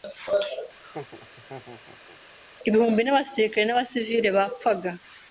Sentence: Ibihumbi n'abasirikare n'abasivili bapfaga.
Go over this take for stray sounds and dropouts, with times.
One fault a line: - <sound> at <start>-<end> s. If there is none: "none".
- laugh at 0.8-2.2 s